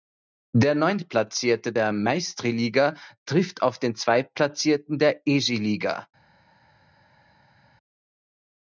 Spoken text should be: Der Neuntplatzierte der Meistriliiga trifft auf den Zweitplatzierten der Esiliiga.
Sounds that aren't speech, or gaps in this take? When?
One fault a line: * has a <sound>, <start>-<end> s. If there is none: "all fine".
all fine